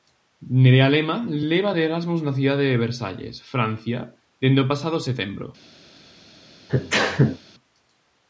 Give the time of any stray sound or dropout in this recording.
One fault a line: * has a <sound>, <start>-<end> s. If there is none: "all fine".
* has a sneeze, 6.7-7.4 s